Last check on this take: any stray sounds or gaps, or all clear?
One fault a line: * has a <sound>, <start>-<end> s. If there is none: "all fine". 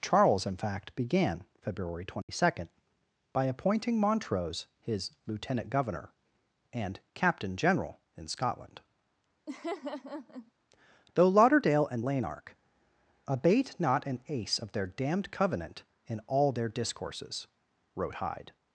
* has a dropout, 2.2-2.3 s
* has a laugh, 9.5-10.5 s